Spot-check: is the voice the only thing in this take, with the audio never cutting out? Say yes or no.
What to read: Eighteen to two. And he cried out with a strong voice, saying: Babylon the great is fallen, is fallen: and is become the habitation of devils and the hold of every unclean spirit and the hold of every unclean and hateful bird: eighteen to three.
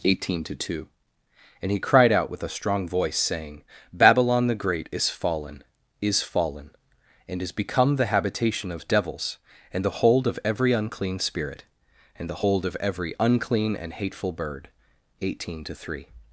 yes